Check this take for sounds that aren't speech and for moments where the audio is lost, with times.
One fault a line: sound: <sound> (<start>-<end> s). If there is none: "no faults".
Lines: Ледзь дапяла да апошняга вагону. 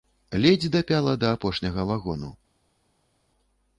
no faults